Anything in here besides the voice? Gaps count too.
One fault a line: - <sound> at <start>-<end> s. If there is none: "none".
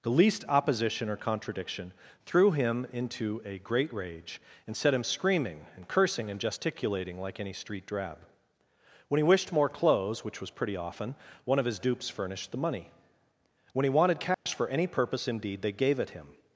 - dropout at 14.3-14.5 s